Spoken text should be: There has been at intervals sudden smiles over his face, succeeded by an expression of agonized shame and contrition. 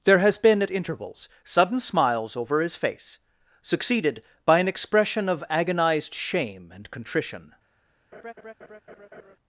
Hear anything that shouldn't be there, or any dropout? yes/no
yes